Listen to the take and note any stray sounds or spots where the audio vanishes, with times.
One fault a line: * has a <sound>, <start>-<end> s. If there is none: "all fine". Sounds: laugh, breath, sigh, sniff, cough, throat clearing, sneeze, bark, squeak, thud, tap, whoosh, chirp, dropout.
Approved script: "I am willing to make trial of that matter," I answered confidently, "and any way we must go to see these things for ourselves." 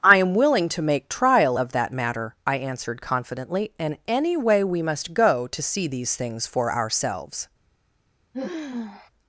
* has a sigh, 8.3-9.1 s